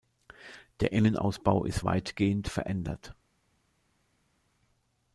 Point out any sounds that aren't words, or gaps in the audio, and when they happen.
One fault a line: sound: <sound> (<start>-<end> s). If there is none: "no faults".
no faults